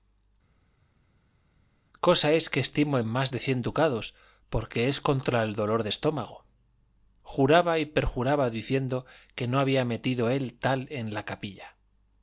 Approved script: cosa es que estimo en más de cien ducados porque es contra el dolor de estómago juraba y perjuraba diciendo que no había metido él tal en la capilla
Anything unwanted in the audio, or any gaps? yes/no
no